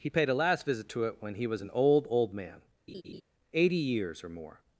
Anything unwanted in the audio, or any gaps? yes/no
yes